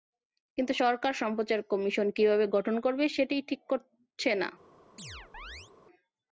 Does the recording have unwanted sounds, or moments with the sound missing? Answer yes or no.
yes